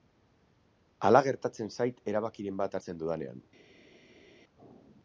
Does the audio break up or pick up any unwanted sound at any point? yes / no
no